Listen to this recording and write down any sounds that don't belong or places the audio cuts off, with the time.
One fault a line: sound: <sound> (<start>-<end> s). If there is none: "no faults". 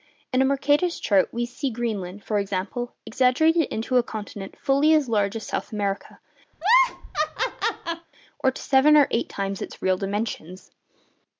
sound: laugh (6.5-8.1 s)